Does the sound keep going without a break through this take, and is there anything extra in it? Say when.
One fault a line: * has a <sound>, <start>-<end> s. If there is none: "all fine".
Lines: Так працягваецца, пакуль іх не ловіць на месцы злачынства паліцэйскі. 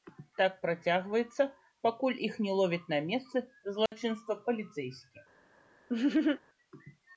* has a dropout, 3.9-3.9 s
* has a laugh, 5.9-6.4 s